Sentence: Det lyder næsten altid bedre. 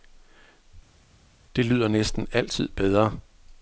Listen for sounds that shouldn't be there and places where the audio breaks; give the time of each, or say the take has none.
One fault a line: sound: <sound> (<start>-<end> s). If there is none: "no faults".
no faults